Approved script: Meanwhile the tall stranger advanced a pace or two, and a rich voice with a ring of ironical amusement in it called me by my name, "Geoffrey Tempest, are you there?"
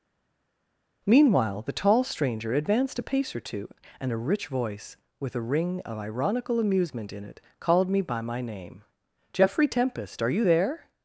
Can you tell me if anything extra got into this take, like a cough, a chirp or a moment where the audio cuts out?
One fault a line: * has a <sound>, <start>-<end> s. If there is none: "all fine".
all fine